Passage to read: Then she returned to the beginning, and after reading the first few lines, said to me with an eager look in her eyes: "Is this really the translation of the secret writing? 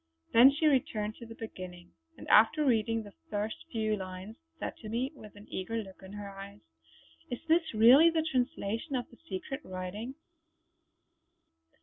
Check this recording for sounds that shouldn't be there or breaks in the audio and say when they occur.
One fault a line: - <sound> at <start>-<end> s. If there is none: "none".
none